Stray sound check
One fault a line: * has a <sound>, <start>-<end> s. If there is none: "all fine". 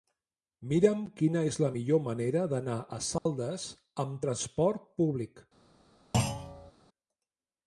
* has a dropout, 3.2-3.3 s
* has a thud, 6.1-6.7 s